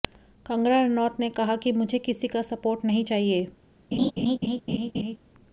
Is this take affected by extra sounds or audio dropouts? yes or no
yes